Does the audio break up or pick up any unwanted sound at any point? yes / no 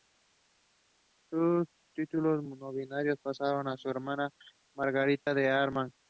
yes